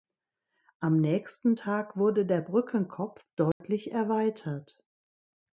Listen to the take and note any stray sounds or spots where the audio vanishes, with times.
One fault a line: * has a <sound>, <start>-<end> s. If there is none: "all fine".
* has a dropout, 3.5-3.6 s